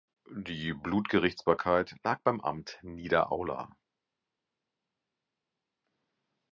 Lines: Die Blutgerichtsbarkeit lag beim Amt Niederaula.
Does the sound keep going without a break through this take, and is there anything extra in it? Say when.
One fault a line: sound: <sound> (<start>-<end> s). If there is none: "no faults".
no faults